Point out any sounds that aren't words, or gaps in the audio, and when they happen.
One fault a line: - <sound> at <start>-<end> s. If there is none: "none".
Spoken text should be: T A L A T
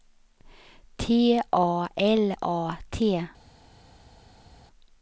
none